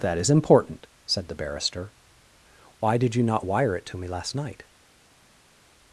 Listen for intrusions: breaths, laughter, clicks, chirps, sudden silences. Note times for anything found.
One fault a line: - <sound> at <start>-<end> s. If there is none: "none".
none